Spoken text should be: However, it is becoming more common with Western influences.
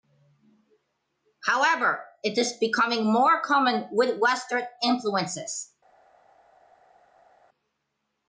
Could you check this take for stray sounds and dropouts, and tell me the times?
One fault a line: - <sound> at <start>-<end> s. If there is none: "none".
none